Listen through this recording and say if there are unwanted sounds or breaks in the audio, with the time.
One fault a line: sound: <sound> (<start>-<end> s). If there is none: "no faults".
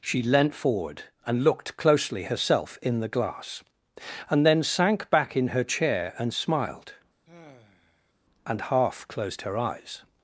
sound: sigh (7.3-8.1 s)